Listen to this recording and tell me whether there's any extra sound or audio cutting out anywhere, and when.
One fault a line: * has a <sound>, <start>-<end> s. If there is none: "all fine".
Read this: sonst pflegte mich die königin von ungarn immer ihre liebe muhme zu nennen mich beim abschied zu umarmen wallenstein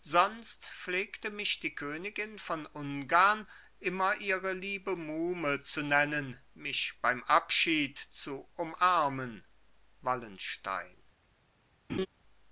* has a laugh, 11.9-12.1 s